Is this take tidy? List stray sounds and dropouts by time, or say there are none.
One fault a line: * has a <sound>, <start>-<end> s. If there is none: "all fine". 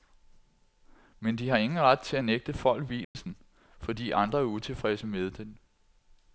* has a dropout, 3.0-3.2 s